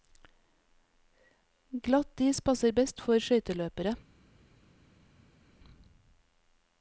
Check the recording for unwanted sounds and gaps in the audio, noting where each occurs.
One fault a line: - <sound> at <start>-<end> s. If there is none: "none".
none